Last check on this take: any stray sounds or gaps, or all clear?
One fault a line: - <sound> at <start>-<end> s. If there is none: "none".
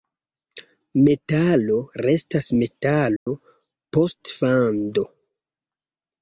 - dropout at 3.2-3.3 s